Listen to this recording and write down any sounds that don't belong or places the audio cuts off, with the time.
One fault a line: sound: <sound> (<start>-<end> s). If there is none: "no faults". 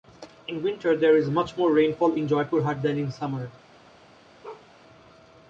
sound: bark (4.4-4.7 s)